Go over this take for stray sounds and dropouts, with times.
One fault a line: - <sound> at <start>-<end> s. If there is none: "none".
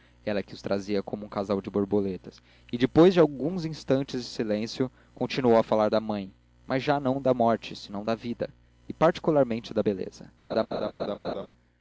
- laugh at 10.5-11.5 s